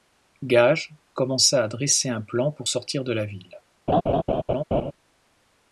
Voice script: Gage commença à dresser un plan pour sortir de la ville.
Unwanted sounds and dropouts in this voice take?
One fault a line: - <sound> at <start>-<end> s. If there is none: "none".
- laugh at 3.9-4.9 s